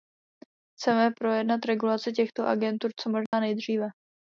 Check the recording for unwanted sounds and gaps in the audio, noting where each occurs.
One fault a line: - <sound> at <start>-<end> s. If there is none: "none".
- dropout at 3.3-3.3 s